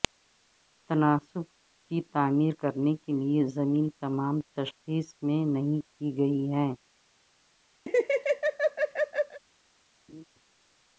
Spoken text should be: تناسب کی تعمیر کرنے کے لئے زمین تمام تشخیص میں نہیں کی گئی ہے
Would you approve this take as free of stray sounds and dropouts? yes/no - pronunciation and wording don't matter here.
no